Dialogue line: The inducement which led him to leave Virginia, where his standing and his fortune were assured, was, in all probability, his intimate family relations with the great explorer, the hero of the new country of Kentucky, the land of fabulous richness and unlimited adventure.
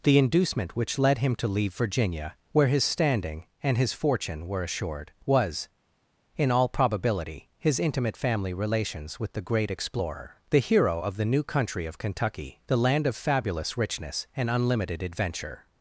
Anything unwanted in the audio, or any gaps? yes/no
no